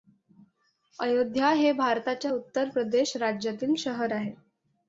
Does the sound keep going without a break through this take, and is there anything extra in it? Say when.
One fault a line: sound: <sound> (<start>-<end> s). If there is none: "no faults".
no faults